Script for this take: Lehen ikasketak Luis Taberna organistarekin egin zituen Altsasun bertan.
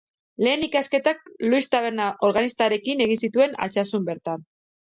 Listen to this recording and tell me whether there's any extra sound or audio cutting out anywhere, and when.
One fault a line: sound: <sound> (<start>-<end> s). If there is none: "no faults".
no faults